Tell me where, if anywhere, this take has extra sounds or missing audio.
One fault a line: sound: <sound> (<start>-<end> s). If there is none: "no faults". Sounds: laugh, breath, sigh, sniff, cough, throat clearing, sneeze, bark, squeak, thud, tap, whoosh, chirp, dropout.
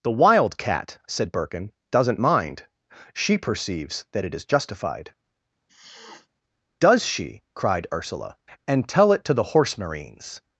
sound: sniff (5.7-6.3 s)